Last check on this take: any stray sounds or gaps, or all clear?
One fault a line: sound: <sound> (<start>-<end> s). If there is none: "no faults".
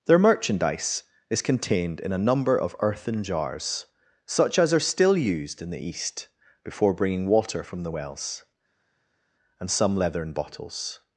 no faults